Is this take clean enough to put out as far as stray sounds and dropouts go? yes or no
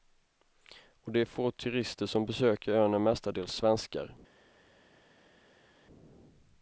yes